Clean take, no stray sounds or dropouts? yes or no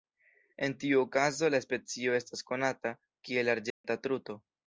no